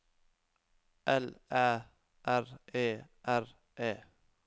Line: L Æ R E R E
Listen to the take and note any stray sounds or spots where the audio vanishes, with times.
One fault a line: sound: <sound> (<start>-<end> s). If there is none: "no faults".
no faults